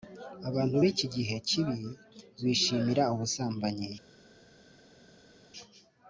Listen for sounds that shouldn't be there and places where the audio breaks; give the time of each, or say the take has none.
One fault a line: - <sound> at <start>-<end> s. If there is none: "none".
none